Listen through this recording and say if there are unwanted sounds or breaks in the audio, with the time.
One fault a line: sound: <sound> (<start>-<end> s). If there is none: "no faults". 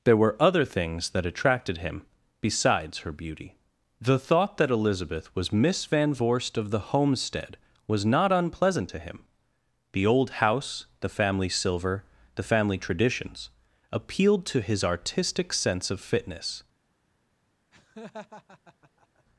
sound: laugh (17.7-19.2 s)